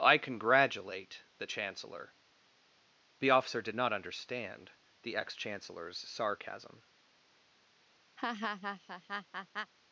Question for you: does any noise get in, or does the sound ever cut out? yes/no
yes